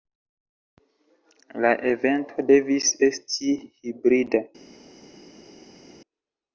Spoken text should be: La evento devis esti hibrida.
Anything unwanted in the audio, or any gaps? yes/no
no